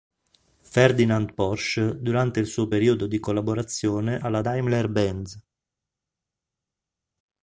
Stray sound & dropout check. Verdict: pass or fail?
pass